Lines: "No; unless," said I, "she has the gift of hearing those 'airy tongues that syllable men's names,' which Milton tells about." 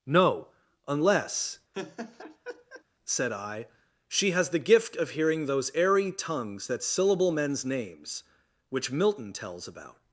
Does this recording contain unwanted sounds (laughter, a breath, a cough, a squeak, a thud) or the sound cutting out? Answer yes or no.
yes